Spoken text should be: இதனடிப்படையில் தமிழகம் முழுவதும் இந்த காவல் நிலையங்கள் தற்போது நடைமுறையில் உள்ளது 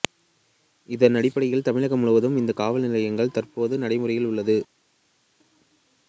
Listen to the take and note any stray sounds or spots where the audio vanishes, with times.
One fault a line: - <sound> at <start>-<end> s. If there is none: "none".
none